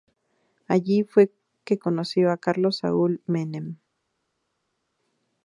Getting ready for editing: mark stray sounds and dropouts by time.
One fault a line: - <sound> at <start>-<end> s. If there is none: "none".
none